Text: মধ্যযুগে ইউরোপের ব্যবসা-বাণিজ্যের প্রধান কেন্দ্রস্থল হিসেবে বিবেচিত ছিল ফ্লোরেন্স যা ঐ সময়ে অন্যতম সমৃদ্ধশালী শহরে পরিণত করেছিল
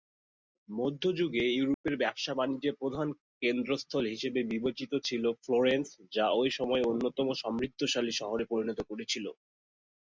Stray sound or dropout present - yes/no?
yes